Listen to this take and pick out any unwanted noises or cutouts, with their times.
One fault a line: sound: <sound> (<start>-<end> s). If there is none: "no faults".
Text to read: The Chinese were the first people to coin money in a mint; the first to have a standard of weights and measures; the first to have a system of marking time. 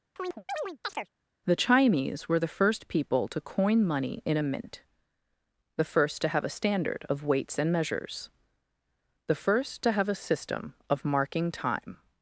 sound: chirp (0.2-1.1 s)